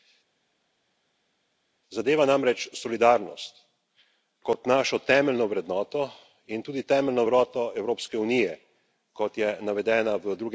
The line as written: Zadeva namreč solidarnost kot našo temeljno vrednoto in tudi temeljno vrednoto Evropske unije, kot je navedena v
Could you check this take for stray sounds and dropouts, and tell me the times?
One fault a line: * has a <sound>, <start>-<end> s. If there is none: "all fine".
all fine